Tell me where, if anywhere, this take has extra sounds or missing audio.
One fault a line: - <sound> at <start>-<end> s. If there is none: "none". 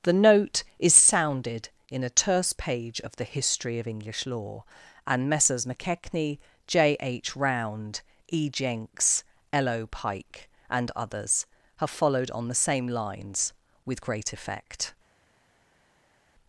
none